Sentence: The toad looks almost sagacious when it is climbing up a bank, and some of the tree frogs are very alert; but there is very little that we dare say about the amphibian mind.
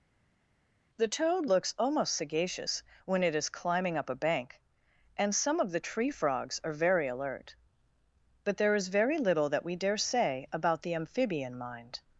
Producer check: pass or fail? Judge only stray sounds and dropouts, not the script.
pass